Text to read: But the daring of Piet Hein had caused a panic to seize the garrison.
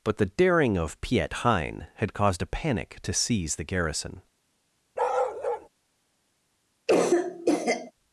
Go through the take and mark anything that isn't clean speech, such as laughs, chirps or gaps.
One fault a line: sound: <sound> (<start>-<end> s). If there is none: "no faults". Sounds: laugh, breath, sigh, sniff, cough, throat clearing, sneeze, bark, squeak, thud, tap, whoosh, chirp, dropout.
sound: bark (5.0-5.7 s)
sound: cough (6.9-7.9 s)